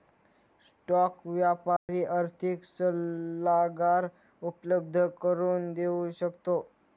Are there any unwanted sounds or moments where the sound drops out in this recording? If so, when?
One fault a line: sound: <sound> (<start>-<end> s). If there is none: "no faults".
sound: dropout (1.8-1.9 s)